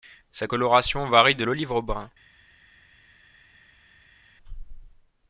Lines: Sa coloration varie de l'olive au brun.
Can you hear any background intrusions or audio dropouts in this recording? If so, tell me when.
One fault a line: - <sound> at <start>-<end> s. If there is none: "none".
none